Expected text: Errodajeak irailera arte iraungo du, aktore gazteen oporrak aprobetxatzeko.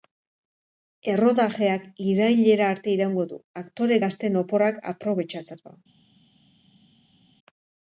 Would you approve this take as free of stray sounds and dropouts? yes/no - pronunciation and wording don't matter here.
yes